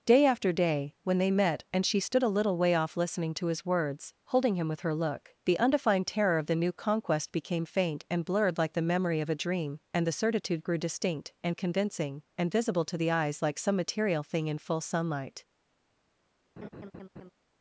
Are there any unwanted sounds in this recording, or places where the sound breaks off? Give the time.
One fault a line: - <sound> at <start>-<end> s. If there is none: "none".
- laugh at 16.6-17.3 s